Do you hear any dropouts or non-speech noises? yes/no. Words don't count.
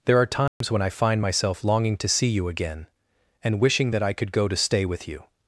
yes